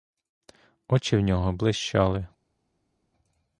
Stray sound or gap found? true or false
false